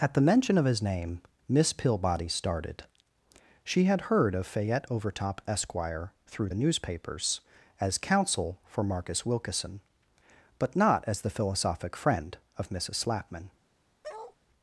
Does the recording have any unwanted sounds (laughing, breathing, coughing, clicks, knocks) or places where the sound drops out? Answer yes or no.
yes